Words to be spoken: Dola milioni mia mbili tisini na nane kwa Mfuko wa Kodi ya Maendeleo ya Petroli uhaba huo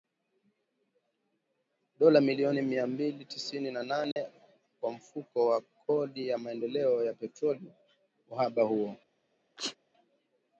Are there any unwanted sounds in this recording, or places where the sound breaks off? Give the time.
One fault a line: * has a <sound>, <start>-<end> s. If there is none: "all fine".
* has a dropout, 4.1-4.2 s
* has a sneeze, 9.6-9.8 s